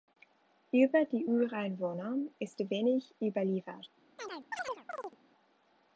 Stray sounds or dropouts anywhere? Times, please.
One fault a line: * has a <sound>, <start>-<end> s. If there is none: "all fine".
* has a chirp, 4.2-5.2 s